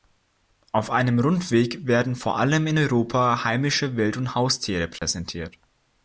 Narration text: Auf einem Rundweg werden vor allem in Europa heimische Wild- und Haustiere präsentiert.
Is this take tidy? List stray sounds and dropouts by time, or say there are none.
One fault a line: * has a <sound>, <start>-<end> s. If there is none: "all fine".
* has a dropout, 5.0-5.0 s